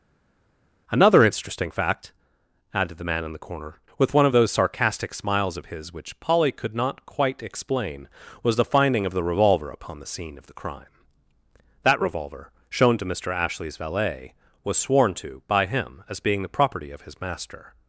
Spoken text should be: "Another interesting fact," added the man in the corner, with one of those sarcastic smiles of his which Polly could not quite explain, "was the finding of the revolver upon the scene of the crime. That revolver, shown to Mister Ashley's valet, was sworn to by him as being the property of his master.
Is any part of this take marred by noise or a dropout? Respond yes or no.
no